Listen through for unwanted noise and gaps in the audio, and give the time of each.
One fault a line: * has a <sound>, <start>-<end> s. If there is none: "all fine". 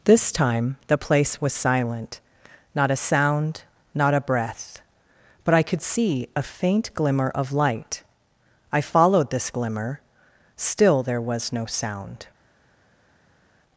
all fine